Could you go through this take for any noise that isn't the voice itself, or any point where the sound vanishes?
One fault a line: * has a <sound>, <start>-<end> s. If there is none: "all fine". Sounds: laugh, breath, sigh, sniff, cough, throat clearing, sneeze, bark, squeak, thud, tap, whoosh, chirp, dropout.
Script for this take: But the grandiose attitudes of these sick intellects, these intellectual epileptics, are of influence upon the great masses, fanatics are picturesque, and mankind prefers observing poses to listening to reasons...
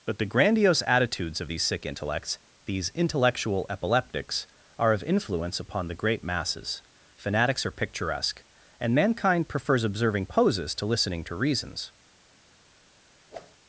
* has a whoosh, 13.3-13.6 s